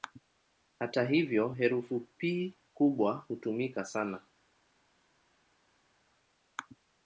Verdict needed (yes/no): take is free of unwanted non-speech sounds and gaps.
yes